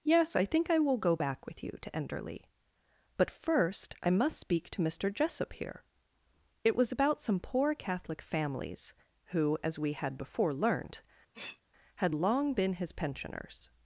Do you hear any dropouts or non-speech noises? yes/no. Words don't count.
yes